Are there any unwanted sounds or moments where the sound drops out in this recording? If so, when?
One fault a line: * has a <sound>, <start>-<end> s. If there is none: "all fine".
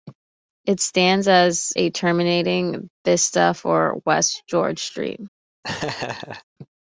* has a laugh, 5.6-6.4 s